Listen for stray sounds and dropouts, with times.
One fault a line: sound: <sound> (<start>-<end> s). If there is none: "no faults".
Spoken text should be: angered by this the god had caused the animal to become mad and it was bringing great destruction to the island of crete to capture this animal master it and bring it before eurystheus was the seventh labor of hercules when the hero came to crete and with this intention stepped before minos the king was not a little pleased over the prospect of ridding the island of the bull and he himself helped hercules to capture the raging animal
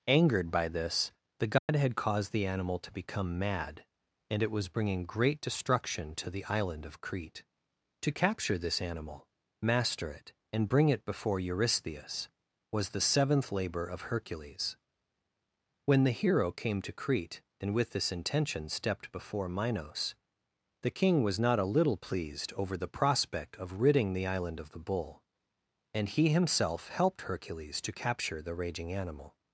sound: dropout (1.6-1.7 s)